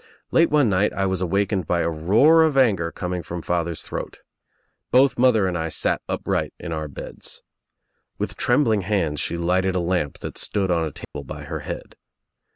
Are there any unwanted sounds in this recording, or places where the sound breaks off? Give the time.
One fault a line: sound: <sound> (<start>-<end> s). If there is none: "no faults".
sound: dropout (11.0-11.1 s)